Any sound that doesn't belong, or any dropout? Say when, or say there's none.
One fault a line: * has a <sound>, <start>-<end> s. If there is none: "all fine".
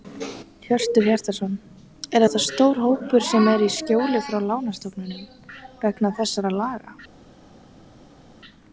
all fine